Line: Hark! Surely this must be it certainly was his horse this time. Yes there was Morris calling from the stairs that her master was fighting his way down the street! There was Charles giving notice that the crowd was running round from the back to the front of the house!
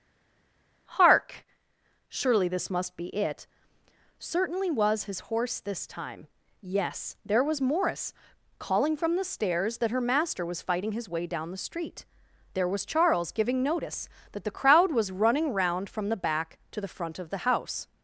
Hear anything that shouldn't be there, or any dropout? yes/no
no